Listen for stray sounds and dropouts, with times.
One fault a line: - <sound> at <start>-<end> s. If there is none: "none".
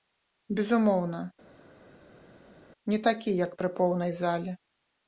none